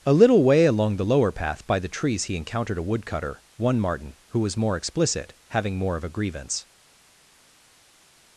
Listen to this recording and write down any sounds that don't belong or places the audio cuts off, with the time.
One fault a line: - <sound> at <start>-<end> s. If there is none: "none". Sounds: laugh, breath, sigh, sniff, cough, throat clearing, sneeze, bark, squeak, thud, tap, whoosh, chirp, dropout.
none